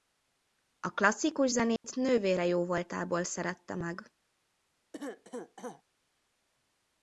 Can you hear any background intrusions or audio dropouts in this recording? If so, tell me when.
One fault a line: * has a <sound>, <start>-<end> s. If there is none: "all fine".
* has a dropout, 1.8-1.8 s
* has a cough, 4.9-5.8 s